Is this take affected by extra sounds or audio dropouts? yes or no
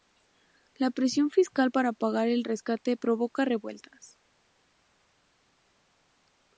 no